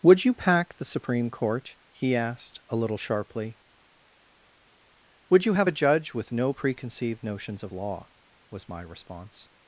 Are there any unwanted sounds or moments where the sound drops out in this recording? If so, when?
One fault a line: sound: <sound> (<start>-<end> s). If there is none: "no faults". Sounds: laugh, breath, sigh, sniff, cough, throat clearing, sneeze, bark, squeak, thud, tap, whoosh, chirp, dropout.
no faults